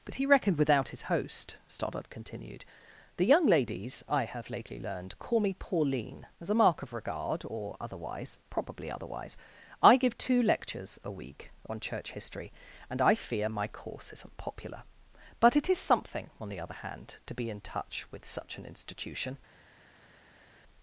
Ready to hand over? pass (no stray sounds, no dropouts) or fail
pass